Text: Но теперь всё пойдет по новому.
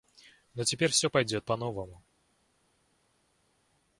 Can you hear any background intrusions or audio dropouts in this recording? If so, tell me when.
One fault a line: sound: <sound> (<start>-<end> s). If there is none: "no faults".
no faults